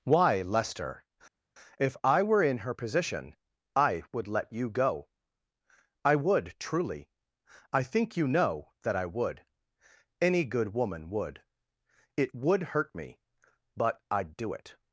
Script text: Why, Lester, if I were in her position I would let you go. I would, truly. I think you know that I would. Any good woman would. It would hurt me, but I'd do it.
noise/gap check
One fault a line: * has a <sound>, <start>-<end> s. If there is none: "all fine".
all fine